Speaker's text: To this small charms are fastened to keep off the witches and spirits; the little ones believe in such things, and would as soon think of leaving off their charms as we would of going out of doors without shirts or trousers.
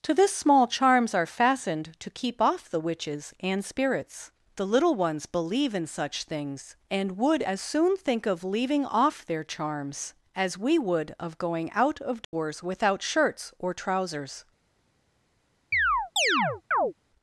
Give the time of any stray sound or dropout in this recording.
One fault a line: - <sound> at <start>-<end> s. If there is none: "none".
- dropout at 12.2-12.3 s
- chirp at 15.7-16.9 s